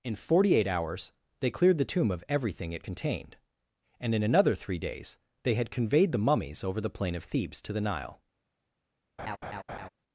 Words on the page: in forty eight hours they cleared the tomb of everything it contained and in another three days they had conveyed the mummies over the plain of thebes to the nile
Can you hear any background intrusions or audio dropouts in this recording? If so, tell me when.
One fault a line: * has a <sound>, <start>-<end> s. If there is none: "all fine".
* has a laugh, 9.2-9.9 s